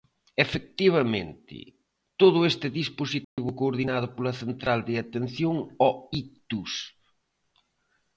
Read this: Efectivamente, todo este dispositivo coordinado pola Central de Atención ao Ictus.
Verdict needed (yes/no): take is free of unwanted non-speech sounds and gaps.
no